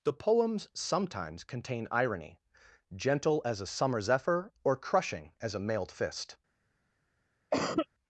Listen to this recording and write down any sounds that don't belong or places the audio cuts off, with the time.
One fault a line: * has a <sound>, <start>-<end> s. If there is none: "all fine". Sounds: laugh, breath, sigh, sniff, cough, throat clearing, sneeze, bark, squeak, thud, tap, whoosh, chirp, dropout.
* has a cough, 7.5-7.9 s